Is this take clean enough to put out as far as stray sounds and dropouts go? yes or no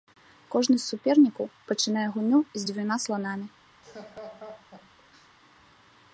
no